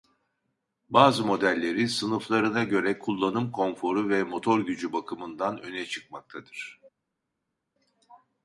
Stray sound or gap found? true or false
false